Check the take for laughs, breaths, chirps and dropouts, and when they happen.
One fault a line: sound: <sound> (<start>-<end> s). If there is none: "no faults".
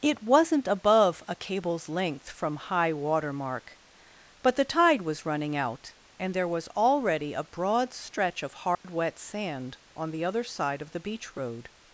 sound: dropout (8.8-8.8 s)